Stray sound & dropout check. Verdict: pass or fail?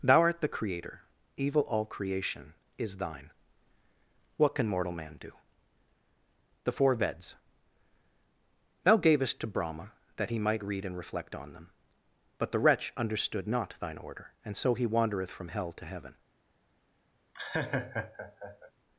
fail